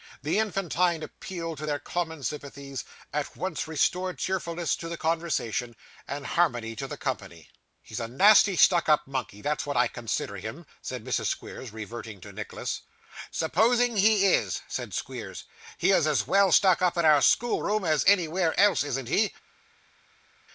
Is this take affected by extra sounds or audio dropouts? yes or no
no